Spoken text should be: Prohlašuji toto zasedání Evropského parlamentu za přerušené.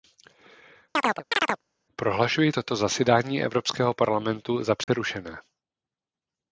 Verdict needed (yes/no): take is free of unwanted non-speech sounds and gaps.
no